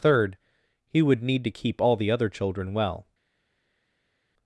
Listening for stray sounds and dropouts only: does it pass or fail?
pass